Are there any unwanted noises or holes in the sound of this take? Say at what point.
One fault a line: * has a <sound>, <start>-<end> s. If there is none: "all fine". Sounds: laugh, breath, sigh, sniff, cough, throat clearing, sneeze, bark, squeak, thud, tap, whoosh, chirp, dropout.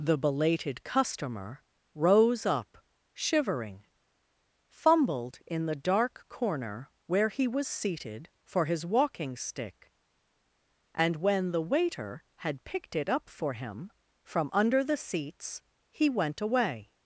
all fine